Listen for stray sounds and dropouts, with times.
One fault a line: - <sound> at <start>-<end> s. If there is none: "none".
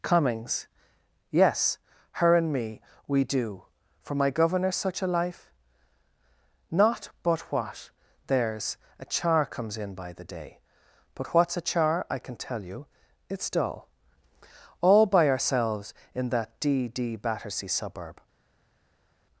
none